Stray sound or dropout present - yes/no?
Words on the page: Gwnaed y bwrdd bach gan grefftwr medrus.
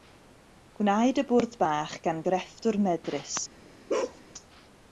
yes